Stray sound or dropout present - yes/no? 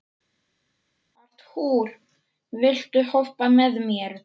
no